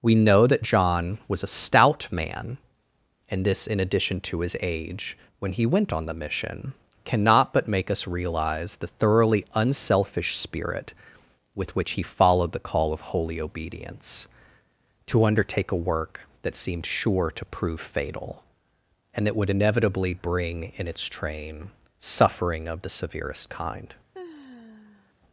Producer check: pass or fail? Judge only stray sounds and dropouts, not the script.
fail